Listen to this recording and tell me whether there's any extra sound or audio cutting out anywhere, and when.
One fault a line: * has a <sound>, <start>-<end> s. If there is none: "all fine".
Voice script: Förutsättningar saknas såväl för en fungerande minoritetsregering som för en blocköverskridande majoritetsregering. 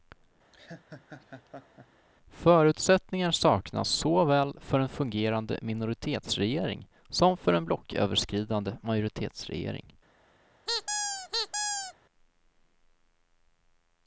* has a laugh, 0.5-2.1 s
* has a squeak, 10.7-11.9 s